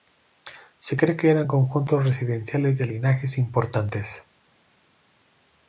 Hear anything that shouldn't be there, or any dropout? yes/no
no